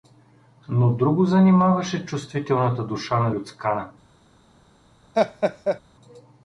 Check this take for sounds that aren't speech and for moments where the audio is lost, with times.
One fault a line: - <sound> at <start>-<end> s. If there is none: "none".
- laugh at 5.1-5.8 s